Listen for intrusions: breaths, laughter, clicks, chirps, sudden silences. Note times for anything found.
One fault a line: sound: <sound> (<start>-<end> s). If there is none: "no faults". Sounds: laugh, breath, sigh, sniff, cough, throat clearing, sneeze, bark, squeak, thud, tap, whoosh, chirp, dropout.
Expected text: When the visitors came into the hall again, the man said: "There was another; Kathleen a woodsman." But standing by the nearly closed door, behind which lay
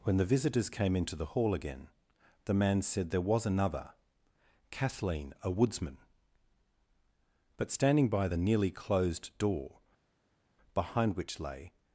no faults